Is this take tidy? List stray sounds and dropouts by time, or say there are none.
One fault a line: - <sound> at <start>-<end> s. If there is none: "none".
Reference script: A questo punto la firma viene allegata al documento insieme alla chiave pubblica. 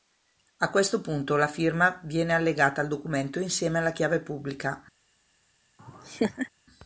- laugh at 5.8-6.5 s